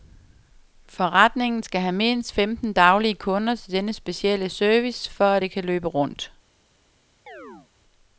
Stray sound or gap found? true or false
true